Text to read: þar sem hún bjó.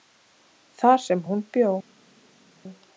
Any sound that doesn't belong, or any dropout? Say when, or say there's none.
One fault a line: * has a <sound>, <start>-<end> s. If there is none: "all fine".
all fine